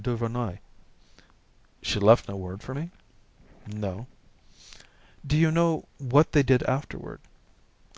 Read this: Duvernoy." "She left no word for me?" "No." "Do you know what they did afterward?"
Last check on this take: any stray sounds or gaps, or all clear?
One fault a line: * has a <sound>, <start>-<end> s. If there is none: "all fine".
all fine